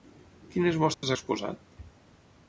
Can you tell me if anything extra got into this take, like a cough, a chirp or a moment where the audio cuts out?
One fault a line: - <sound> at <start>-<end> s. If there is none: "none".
- dropout at 0.9-1.0 s